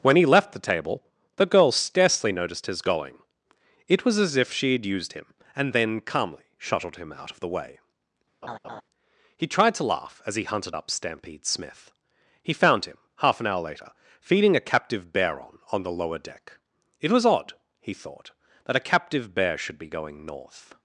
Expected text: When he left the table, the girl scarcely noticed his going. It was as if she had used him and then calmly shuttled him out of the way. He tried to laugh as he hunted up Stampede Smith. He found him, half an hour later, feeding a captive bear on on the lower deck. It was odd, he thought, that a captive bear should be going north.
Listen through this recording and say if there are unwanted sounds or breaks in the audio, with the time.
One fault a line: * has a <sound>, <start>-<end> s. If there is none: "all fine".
* has a laugh, 8.4-8.8 s